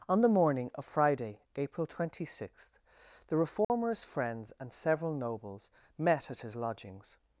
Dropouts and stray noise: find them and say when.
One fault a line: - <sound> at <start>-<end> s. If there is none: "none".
- dropout at 3.6-3.7 s